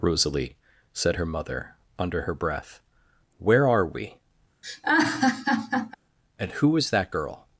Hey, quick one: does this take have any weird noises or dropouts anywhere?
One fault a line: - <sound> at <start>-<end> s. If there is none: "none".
- laugh at 4.6-5.9 s